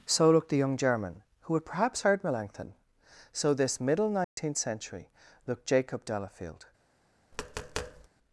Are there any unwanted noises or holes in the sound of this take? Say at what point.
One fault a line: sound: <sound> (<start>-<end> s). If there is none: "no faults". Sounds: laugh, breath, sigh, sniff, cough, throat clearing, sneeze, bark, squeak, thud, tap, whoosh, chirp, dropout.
sound: dropout (4.2-4.4 s)
sound: tap (7.3-8.1 s)